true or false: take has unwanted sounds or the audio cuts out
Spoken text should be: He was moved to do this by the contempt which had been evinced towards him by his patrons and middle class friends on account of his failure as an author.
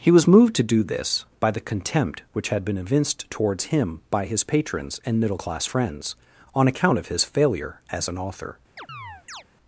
true